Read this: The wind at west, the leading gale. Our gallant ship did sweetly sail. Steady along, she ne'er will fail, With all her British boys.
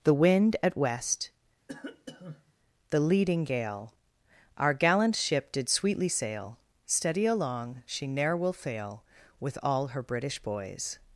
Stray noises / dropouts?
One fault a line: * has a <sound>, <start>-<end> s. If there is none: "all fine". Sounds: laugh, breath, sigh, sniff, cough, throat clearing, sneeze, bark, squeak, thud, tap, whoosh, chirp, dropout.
* has a cough, 1.7-2.5 s